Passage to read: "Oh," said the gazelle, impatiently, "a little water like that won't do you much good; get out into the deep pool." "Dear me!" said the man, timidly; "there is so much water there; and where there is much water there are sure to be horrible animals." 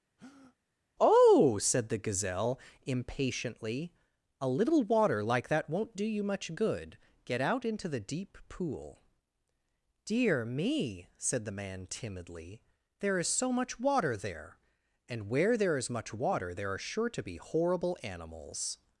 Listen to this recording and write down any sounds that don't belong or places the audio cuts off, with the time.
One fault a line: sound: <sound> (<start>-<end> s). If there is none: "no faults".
sound: breath (0.2-0.6 s)